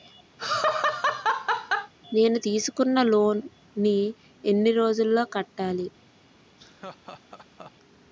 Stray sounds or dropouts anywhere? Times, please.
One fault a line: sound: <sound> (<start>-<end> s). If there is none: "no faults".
sound: laugh (0.4-1.9 s)
sound: laugh (6.6-7.7 s)